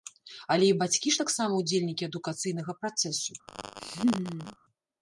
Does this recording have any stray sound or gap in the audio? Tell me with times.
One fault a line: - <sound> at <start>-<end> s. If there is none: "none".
- laugh at 3.5-4.6 s